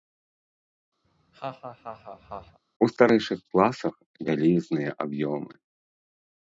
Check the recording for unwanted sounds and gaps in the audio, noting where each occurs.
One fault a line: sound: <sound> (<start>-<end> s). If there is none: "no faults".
sound: laugh (1.0-2.6 s)